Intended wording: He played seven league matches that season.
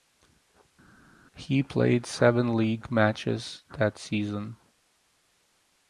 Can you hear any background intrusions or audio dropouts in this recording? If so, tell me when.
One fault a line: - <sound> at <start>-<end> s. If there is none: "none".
none